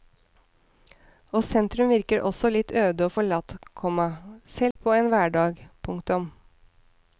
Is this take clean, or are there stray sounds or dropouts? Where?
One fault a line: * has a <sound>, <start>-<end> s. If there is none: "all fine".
* has a dropout, 4.7-4.8 s